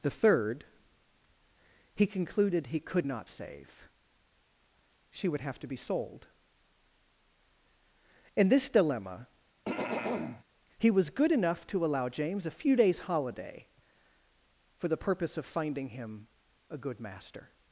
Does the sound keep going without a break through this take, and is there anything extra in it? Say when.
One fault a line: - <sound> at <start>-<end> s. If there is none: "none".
- throat clearing at 9.7-10.4 s